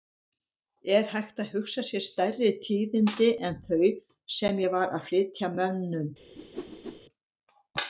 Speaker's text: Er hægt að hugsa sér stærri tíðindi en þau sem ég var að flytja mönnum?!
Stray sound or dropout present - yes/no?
yes